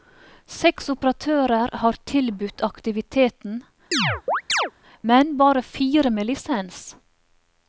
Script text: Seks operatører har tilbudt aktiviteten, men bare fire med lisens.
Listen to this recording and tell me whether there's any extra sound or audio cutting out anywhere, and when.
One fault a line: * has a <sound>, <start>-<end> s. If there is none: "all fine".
* has a chirp, 3.9-4.7 s